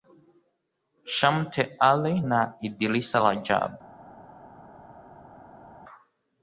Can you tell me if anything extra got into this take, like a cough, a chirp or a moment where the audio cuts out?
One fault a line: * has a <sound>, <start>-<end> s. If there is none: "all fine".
all fine